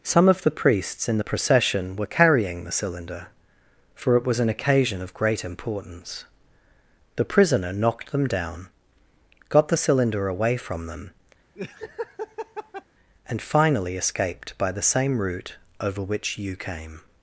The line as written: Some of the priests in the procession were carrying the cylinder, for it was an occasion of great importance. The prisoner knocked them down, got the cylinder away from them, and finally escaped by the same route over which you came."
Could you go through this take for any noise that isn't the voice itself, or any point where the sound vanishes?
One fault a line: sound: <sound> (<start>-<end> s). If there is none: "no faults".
sound: laugh (11.6-12.8 s)